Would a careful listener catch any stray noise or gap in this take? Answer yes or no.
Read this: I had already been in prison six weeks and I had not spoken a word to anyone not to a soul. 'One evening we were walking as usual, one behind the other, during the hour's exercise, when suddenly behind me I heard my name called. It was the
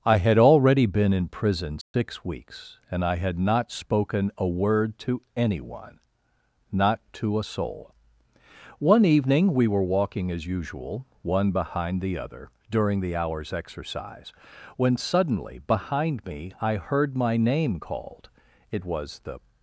yes